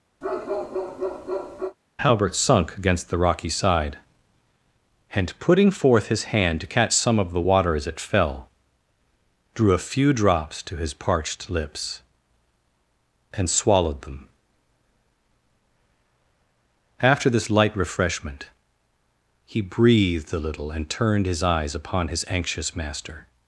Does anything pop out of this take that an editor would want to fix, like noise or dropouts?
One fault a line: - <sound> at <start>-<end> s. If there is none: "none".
- bark at 0.2-1.8 s